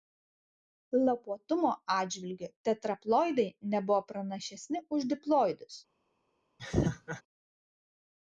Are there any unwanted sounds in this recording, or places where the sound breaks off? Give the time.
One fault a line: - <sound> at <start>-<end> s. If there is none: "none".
- laugh at 6.6-7.2 s